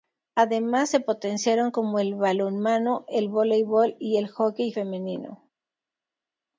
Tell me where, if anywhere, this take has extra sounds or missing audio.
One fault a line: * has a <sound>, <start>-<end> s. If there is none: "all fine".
all fine